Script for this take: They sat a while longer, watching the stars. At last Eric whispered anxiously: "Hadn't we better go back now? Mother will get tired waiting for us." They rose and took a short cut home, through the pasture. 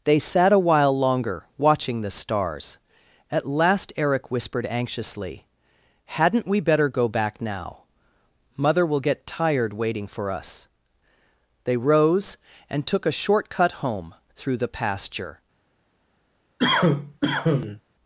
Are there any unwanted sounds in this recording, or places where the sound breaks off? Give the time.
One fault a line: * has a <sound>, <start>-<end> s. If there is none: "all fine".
* has a cough, 16.6-17.8 s